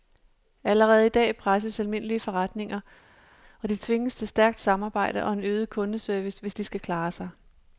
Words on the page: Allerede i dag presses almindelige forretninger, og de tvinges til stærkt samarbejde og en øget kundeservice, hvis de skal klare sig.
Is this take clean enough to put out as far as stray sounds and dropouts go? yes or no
yes